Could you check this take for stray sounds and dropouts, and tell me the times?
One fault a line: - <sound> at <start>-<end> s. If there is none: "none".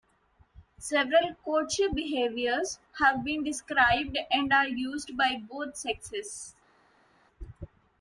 none